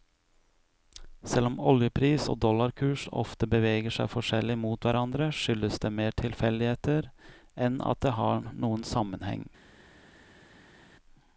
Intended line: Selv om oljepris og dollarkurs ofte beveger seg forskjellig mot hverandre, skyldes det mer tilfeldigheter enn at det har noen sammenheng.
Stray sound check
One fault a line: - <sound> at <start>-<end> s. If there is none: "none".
none